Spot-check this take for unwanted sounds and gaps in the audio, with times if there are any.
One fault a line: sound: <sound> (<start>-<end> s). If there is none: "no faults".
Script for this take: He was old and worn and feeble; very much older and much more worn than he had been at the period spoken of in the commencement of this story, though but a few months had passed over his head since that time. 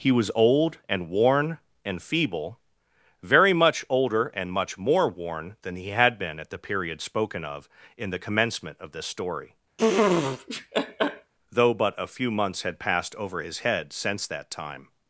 sound: laugh (9.8-11.3 s)